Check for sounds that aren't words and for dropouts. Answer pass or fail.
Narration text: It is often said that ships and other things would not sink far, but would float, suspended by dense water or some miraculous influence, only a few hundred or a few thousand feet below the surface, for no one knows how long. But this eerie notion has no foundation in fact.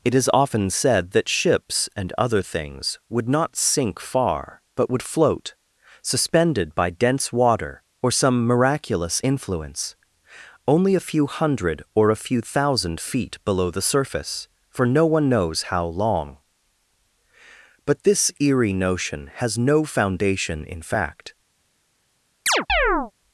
fail